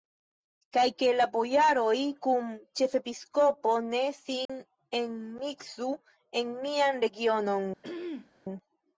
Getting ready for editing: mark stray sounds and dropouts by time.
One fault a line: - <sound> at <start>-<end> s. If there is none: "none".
- dropout at 4.5-4.5 s
- throat clearing at 7.8-8.3 s